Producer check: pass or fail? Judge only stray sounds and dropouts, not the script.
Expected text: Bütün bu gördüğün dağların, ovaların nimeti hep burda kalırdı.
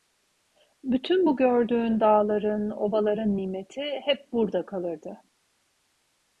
pass